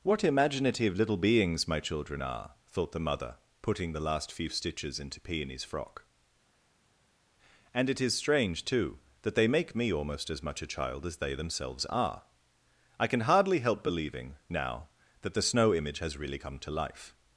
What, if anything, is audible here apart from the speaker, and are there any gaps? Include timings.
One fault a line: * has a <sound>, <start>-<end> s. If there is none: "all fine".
all fine